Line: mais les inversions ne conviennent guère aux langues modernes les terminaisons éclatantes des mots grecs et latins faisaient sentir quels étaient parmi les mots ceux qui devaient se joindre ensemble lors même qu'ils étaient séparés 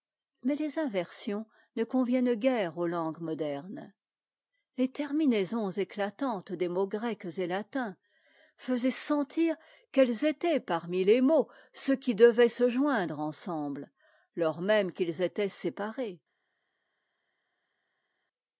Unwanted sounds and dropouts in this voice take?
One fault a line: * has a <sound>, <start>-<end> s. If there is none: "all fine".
all fine